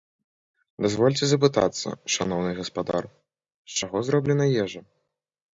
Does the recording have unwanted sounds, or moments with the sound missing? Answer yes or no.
no